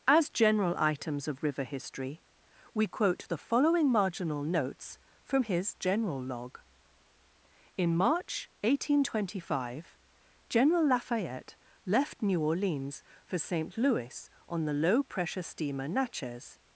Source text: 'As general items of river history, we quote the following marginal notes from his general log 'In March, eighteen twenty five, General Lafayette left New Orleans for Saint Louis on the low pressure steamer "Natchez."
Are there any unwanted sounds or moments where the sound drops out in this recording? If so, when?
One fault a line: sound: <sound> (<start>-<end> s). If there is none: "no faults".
no faults